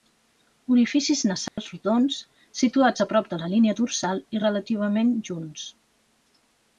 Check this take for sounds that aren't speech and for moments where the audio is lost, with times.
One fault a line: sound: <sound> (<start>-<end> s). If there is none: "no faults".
sound: dropout (1.5-1.6 s)